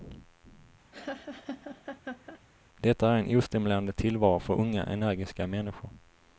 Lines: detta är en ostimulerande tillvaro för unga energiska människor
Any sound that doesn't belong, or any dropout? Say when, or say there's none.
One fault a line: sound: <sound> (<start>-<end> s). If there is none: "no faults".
sound: laugh (0.9-2.4 s)